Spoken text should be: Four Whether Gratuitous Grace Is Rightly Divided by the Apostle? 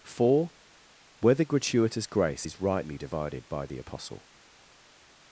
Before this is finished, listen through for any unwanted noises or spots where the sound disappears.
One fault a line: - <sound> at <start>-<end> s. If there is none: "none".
none